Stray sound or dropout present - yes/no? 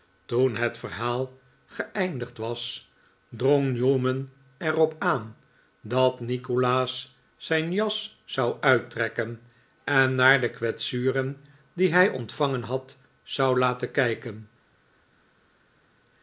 no